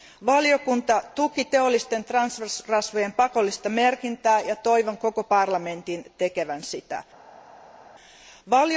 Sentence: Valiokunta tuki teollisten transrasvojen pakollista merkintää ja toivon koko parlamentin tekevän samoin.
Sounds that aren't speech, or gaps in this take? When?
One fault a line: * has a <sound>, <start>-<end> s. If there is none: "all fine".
all fine